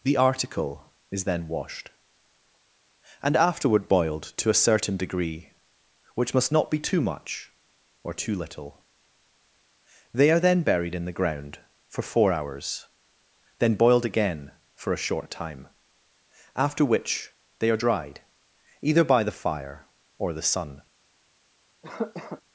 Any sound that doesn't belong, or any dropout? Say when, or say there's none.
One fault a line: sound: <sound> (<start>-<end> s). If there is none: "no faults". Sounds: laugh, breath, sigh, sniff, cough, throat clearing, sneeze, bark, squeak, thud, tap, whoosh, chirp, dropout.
sound: cough (21.8-22.4 s)